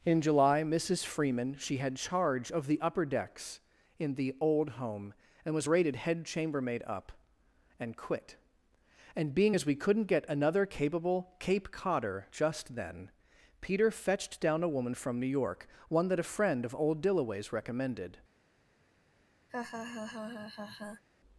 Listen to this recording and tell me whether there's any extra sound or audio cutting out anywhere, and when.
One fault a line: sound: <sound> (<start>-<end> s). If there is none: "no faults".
sound: laugh (19.5-21.0 s)